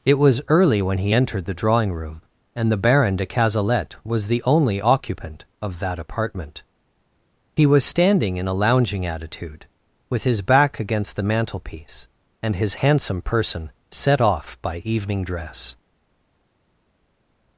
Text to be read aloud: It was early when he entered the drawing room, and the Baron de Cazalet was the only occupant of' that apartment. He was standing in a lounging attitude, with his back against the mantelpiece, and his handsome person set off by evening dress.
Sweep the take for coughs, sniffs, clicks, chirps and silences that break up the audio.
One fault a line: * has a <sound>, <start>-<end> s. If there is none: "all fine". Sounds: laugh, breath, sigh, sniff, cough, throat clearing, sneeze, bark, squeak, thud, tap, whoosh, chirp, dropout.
all fine